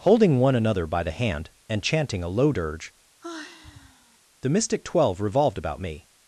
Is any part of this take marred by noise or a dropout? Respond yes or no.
yes